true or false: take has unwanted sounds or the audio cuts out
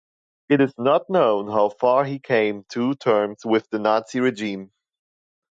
false